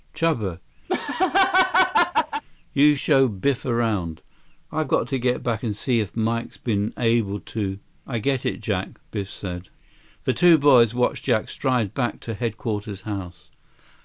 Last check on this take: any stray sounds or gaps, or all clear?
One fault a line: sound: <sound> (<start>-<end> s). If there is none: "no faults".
sound: laugh (0.9-2.4 s)